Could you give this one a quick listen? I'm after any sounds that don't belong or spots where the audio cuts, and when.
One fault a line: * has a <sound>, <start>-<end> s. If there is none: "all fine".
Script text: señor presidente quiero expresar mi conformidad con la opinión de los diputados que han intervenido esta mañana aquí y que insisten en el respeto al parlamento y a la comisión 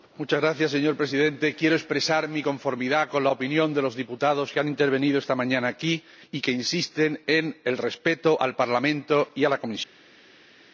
all fine